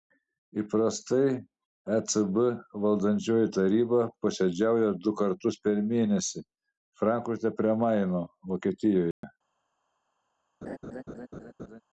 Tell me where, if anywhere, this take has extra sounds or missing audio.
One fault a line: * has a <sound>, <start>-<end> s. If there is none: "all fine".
* has a dropout, 9.1-9.2 s
* has a laugh, 10.6-11.8 s